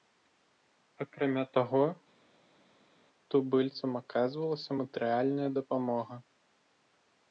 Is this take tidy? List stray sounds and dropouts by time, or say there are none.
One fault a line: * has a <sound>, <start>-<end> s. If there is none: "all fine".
all fine